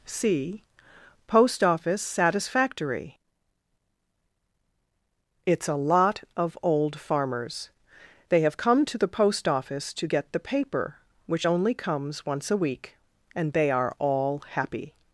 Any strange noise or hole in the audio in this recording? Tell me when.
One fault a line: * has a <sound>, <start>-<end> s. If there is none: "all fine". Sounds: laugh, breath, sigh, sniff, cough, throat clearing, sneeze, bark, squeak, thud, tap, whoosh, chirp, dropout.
all fine